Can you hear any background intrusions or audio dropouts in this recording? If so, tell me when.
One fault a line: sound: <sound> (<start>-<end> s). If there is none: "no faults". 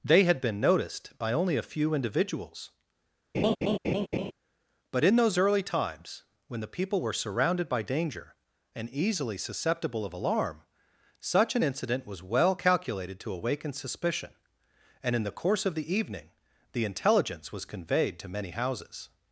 sound: laugh (3.3-4.3 s)